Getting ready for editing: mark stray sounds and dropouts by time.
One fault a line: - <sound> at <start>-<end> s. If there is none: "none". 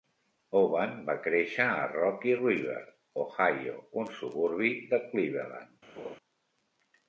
- laugh at 6.0-6.2 s